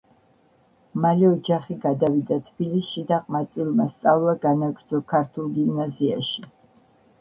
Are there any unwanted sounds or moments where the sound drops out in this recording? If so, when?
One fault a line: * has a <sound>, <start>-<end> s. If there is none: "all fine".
all fine